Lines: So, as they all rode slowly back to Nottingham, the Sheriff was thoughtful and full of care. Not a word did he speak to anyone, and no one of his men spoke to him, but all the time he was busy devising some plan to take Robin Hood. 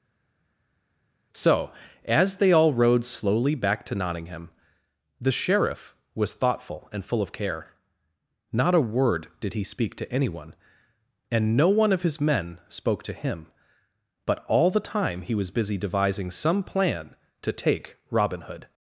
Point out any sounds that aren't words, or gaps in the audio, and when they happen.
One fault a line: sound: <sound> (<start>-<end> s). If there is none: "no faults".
no faults